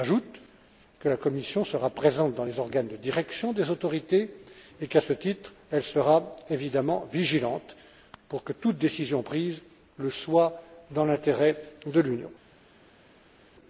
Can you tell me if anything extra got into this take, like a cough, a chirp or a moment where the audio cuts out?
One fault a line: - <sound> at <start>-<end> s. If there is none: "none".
none